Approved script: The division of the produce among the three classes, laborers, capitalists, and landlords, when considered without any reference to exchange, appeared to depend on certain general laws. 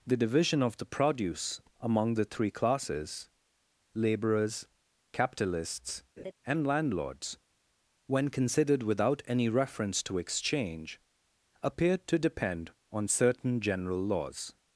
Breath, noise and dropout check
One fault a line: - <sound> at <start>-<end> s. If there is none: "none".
- laugh at 6.2-6.3 s